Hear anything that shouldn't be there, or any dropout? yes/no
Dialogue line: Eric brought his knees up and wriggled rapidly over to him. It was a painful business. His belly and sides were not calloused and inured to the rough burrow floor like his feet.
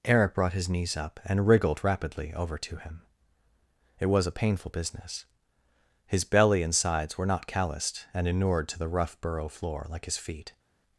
no